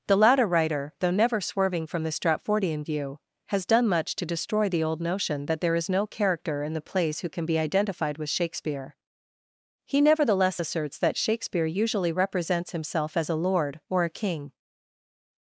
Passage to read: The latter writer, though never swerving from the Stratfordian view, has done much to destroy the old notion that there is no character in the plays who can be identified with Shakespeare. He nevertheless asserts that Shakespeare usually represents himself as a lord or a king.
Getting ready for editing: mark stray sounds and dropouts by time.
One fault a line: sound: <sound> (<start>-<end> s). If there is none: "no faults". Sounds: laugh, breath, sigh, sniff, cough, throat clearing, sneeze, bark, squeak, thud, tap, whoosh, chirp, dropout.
no faults